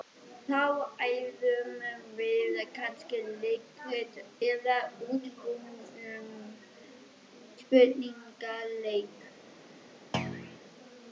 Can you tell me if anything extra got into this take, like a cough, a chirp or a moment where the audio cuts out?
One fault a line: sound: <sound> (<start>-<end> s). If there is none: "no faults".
sound: thud (10.1-10.6 s)